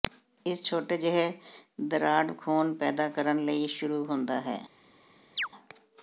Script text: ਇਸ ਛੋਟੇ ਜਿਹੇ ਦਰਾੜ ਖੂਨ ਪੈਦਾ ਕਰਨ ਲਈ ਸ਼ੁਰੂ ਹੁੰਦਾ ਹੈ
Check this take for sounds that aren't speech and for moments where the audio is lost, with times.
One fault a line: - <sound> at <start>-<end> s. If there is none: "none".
- chirp at 5.4-5.5 s